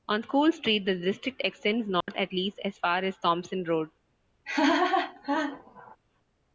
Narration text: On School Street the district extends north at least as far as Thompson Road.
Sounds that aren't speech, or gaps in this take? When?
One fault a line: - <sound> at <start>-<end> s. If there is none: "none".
- dropout at 2.0-2.1 s
- laugh at 4.4-6.0 s